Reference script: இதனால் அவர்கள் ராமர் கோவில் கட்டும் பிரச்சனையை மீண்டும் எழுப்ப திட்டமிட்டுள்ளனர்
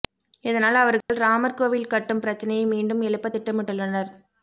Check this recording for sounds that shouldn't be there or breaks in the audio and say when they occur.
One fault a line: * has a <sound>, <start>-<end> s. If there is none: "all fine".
* has a dropout, 1.0-1.1 s